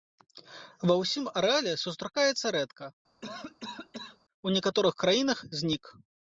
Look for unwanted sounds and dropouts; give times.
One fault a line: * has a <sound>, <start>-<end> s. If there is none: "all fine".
* has a cough, 3.2-4.2 s